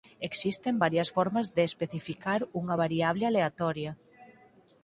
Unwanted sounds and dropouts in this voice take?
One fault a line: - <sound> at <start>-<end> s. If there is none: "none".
none